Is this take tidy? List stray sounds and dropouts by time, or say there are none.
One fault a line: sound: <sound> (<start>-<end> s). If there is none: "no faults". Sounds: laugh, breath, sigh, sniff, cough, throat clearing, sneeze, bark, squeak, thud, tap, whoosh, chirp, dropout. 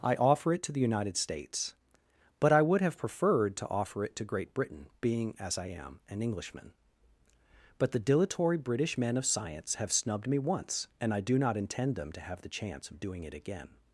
no faults